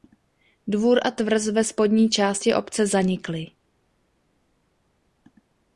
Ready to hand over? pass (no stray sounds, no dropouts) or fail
pass